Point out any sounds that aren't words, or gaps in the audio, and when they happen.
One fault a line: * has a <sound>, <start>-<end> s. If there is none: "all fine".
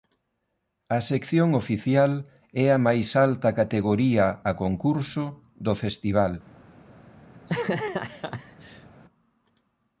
* has a laugh, 7.3-8.9 s